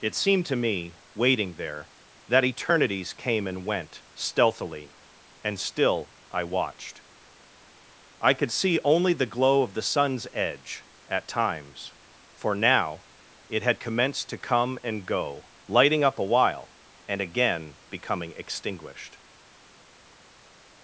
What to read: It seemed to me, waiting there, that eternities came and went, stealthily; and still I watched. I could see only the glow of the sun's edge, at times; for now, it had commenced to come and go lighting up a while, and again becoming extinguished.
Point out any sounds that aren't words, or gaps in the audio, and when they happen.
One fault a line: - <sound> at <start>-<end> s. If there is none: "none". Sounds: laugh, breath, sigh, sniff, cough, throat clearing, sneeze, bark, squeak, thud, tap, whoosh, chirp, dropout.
none